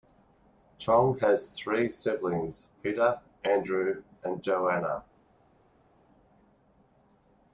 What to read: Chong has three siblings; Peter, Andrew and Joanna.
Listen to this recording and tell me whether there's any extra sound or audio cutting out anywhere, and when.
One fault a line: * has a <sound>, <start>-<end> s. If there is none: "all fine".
all fine